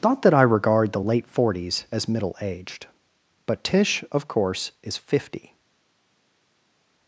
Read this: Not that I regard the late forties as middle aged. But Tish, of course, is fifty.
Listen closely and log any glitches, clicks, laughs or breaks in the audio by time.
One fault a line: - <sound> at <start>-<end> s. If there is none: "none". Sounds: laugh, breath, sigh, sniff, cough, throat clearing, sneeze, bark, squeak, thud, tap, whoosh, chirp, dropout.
none